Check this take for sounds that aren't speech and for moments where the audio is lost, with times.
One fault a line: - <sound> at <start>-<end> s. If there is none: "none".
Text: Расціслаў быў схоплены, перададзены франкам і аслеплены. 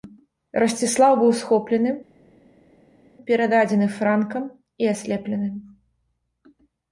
none